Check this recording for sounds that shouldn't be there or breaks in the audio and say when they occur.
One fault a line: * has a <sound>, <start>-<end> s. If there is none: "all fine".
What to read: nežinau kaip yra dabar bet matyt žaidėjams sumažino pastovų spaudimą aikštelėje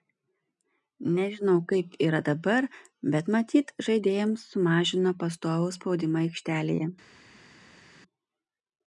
all fine